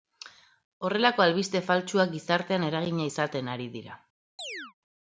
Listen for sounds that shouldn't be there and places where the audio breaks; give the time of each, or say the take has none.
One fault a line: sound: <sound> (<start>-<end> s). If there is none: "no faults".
sound: chirp (4.4-4.7 s)